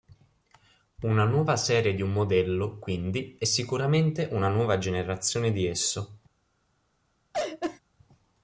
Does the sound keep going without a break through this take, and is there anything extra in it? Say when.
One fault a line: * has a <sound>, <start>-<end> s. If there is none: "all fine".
* has a laugh, 7.3-7.8 s